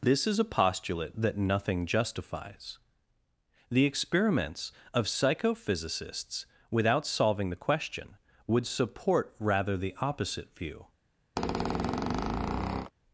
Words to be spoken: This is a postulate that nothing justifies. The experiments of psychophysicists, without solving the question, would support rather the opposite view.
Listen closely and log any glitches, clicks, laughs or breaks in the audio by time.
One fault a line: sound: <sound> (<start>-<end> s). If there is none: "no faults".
sound: squeak (11.4-12.9 s)